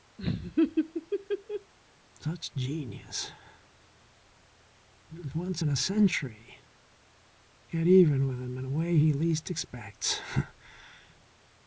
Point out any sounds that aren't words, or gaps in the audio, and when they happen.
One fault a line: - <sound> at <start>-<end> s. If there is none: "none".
- laugh at 0.2-1.7 s